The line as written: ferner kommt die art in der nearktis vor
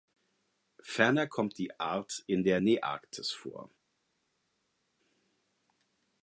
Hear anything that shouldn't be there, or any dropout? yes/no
no